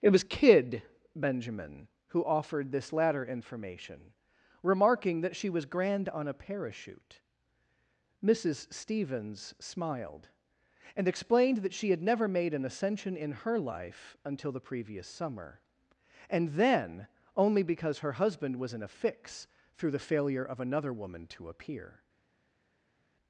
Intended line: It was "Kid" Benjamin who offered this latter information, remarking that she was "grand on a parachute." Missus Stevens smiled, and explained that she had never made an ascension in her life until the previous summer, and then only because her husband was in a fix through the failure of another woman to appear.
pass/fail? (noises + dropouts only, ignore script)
pass